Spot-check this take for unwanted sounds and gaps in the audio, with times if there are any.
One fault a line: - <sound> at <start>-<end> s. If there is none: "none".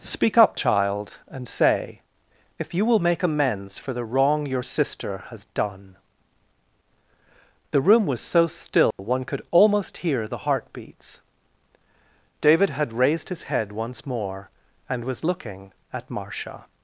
- dropout at 8.9-9.0 s